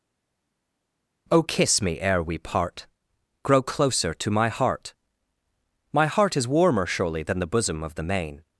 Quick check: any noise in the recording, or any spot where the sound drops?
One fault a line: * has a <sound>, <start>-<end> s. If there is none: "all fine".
all fine